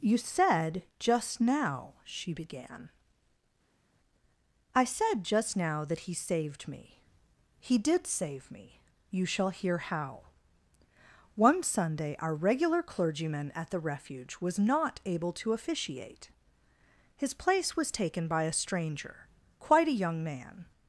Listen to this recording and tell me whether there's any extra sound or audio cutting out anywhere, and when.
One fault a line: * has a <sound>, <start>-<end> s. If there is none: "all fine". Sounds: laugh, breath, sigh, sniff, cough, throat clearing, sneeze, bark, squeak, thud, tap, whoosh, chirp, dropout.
all fine